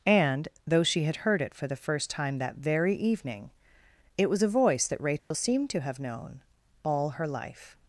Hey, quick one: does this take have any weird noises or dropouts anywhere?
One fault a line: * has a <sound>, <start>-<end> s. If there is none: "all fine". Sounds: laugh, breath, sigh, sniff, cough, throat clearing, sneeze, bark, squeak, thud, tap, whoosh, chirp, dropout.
* has a dropout, 5.2-5.3 s